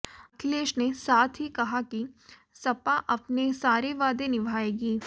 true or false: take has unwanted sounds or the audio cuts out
false